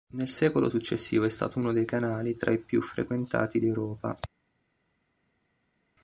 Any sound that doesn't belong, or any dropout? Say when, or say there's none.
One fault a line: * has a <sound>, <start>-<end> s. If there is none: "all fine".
all fine